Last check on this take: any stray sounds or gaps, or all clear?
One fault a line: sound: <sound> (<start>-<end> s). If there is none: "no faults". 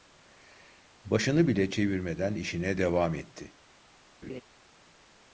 sound: laugh (4.2-4.4 s)